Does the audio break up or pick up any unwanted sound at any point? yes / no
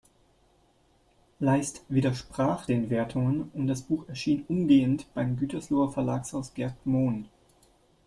no